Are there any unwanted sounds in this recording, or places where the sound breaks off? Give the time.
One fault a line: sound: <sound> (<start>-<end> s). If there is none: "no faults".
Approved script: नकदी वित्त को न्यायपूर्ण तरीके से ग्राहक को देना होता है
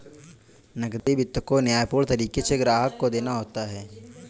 sound: dropout (1.0-1.1 s)